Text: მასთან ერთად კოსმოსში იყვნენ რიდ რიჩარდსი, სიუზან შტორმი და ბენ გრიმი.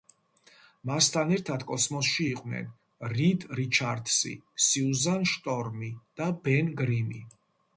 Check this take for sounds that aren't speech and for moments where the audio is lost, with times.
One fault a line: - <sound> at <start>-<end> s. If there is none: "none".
none